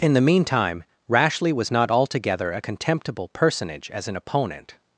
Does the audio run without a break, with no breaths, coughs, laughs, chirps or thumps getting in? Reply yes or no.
yes